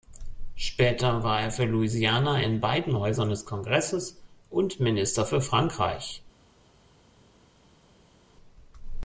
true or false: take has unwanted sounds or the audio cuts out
false